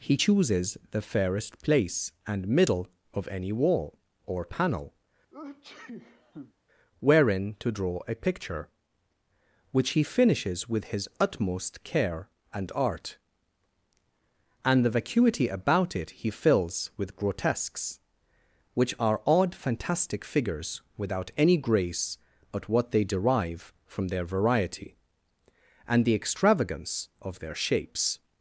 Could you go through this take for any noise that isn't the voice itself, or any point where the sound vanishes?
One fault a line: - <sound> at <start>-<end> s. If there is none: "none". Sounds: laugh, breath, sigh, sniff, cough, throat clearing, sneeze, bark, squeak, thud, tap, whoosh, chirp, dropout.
- sneeze at 5.3-6.5 s